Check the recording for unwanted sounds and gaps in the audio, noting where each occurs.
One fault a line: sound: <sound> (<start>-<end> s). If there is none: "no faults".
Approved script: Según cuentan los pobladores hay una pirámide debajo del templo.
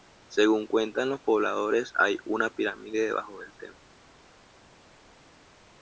no faults